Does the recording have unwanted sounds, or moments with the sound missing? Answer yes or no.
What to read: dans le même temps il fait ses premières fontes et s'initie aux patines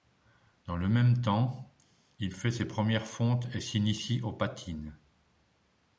no